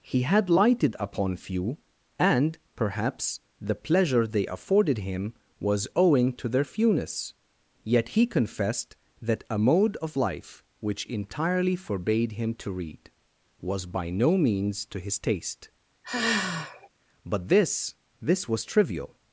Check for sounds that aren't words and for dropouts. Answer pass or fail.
fail